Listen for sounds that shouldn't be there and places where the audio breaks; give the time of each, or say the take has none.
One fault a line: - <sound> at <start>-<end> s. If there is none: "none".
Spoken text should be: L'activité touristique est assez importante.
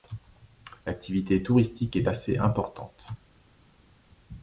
none